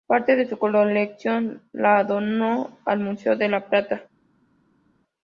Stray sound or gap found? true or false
false